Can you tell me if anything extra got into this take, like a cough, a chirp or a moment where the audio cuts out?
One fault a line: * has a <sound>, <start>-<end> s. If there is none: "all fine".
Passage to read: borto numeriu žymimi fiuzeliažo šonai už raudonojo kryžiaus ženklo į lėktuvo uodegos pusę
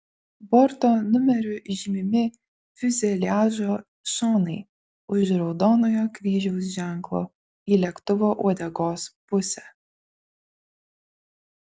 all fine